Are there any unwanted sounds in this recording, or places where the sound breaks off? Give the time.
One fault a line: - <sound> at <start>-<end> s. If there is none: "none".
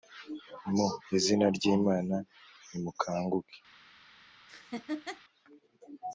- laugh at 4.5-5.2 s